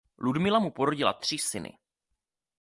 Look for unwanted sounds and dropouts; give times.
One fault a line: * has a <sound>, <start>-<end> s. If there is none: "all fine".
all fine